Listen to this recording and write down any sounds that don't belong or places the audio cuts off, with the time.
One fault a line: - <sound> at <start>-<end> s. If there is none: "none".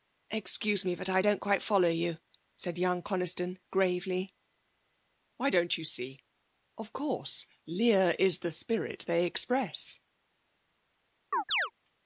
- chirp at 11.3-11.7 s